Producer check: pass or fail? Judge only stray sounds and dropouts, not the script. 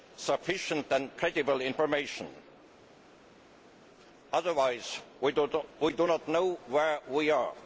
pass